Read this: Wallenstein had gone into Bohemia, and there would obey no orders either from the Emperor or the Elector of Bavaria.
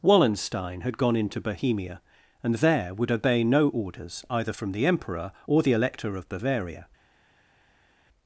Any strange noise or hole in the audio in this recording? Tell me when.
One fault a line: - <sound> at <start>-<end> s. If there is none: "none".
none